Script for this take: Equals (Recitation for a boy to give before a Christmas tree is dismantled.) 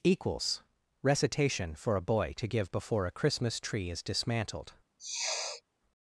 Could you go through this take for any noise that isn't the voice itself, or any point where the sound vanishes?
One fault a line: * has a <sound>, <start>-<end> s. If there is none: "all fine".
* has a sniff, 5.0-5.6 s